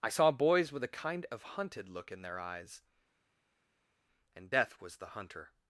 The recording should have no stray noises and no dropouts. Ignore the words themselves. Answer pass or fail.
pass